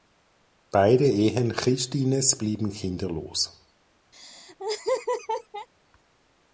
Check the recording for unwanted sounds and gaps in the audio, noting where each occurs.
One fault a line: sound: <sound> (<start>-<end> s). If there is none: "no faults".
sound: laugh (4.1-5.7 s)